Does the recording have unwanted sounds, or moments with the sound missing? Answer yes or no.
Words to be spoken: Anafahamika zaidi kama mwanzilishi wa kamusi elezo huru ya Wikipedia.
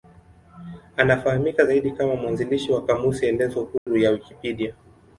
yes